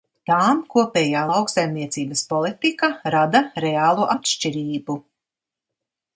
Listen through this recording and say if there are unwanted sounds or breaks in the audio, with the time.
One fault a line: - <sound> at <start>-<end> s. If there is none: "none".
none